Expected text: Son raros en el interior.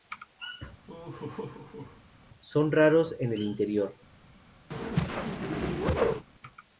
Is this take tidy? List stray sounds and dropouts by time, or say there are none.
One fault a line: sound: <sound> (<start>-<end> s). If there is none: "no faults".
sound: laugh (0.9-2.0 s)
sound: whoosh (4.7-6.3 s)